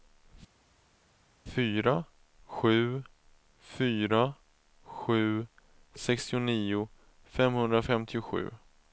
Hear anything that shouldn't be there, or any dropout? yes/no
no